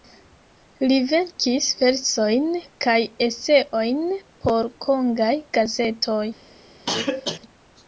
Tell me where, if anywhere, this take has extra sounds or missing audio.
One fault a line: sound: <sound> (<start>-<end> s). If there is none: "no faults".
sound: cough (6.9-7.4 s)